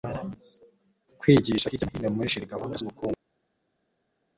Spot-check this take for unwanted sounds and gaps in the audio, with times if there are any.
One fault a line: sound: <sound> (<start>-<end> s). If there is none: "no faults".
no faults